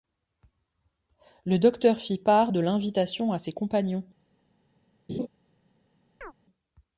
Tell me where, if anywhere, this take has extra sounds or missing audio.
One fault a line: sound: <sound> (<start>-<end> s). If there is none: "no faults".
sound: laugh (5.1-5.3 s)
sound: chirp (6.2-6.3 s)